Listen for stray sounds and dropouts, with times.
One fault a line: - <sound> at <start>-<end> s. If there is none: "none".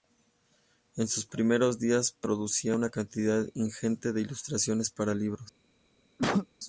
- cough at 6.2-6.5 s